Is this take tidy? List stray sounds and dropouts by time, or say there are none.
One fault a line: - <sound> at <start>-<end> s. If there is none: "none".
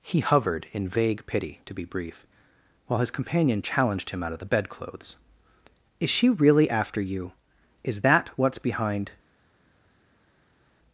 none